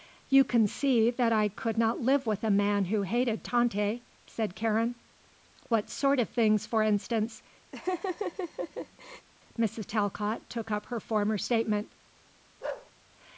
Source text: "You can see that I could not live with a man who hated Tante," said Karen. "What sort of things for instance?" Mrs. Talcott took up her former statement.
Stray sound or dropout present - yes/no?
yes